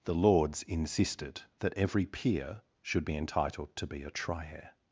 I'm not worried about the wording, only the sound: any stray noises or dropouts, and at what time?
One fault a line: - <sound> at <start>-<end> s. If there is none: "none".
none